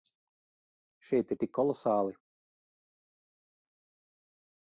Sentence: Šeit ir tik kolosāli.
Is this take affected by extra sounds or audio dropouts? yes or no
no